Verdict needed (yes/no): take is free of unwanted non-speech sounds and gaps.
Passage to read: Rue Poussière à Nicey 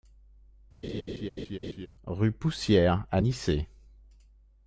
no